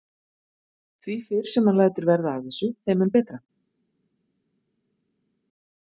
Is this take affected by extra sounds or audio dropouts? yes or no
no